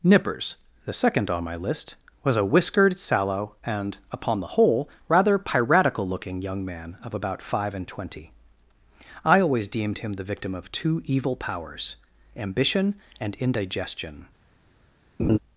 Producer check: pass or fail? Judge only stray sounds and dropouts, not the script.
fail